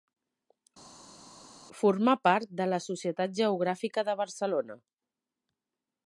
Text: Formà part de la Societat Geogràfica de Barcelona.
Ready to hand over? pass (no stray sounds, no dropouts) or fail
pass